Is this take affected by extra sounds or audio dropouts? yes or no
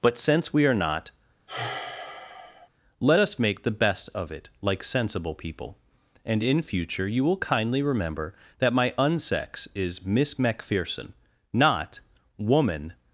yes